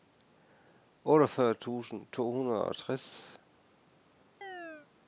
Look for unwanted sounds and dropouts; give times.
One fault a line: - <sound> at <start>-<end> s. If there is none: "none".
- chirp at 4.4-4.9 s